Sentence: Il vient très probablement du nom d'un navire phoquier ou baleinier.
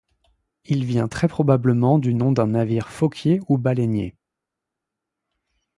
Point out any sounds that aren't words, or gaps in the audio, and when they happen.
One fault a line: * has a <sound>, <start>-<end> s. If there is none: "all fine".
all fine